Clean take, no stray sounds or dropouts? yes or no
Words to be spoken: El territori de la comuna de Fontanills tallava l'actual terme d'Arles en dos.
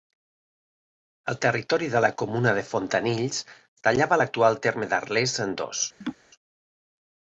no